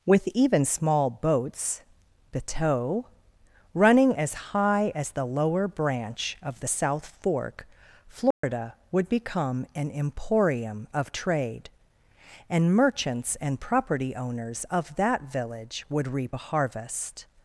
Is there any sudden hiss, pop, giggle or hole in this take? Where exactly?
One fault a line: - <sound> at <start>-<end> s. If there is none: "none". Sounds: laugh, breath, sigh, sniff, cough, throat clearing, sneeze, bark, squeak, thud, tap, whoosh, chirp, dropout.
- dropout at 8.3-8.4 s